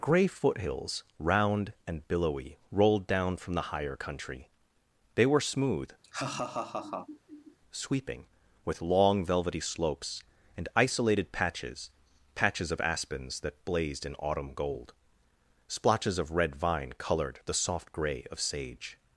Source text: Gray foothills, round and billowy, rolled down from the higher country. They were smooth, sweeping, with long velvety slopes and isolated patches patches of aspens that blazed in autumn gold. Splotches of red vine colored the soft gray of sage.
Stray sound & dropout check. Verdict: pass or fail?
fail